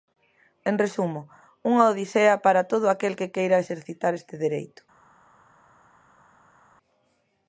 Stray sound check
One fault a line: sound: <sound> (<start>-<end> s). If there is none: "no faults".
no faults